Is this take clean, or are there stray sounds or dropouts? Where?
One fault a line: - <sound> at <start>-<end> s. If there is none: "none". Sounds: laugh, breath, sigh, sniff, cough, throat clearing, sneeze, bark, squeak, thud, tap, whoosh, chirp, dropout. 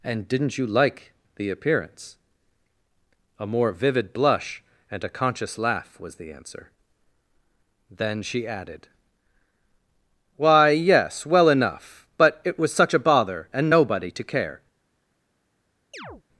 - chirp at 15.9-16.2 s